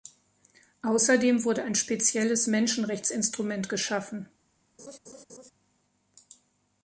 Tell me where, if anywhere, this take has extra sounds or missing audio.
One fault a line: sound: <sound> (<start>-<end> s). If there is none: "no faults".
sound: laugh (4.8-5.5 s)